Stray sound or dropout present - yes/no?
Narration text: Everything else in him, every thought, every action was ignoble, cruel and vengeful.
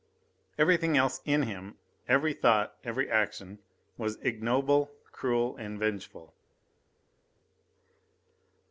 no